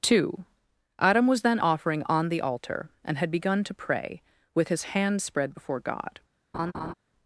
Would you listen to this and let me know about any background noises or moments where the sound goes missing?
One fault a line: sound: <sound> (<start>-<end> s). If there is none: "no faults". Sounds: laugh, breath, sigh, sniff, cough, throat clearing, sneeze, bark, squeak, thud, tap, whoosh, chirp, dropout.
sound: laugh (6.5-6.9 s)